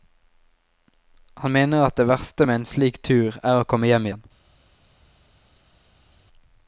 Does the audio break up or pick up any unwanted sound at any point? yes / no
no